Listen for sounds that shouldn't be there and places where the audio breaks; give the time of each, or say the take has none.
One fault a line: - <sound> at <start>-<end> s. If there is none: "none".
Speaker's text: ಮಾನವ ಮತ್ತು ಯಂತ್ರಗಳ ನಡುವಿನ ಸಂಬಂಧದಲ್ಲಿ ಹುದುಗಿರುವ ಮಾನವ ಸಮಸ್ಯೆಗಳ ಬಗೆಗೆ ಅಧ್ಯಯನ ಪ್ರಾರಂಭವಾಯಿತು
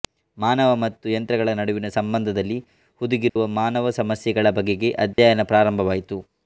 - dropout at 3.3-3.4 s
- dropout at 5.1-5.2 s